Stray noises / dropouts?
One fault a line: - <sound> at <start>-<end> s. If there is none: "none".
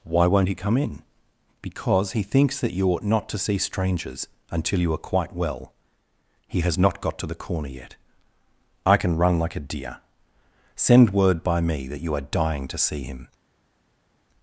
none